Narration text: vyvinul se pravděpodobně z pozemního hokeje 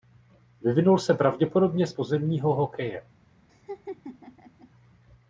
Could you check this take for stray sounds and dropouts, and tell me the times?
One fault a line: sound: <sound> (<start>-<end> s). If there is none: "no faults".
sound: laugh (3.5-4.7 s)